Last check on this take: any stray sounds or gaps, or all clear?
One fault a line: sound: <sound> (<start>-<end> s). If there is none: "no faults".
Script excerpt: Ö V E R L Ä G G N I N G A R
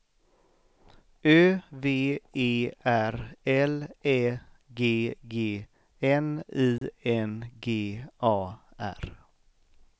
sound: dropout (6.8-6.8 s)